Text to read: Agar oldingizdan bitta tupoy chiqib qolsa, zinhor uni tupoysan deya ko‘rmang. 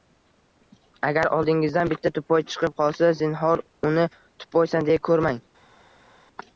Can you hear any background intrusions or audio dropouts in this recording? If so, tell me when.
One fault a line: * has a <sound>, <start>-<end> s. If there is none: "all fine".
all fine